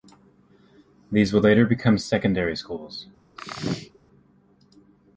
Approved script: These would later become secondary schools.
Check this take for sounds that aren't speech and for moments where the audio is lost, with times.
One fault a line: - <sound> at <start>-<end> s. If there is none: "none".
- sneeze at 3.4-4.0 s